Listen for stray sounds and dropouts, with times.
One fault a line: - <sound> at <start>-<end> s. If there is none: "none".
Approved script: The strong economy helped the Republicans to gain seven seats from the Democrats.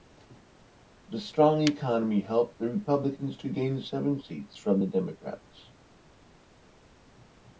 none